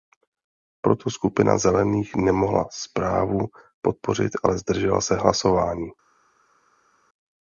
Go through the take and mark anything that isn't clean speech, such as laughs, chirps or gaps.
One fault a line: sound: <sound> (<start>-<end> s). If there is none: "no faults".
no faults